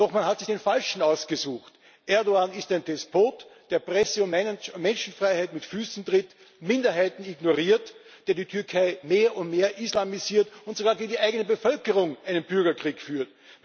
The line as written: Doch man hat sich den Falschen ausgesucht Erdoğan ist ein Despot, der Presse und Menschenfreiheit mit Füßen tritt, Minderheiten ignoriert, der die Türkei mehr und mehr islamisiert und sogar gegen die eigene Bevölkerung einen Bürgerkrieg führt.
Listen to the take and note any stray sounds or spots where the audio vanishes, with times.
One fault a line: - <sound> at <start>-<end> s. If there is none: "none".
none